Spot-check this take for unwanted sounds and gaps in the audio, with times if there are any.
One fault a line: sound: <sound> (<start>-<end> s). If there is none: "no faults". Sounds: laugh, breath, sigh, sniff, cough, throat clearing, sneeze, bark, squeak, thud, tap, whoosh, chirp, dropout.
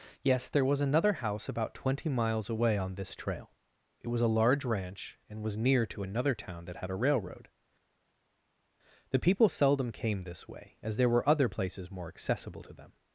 no faults